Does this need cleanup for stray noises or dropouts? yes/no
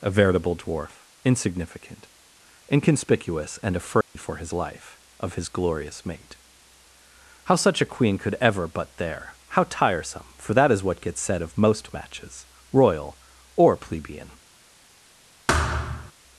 yes